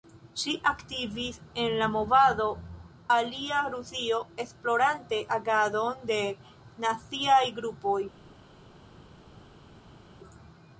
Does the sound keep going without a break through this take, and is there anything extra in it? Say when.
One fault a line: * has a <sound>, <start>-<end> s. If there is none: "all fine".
all fine